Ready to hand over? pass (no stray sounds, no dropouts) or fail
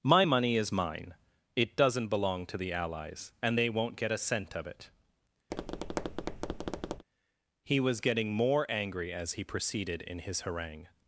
fail